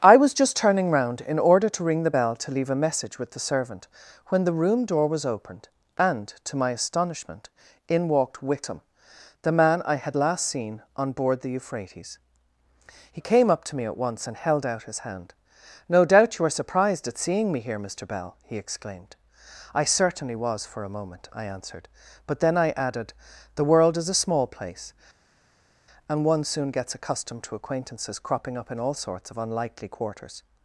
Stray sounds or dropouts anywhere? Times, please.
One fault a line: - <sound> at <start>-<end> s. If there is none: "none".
none